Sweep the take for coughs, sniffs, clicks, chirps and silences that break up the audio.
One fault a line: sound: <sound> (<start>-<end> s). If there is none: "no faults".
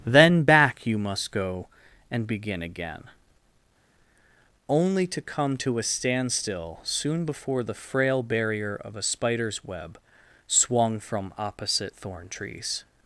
no faults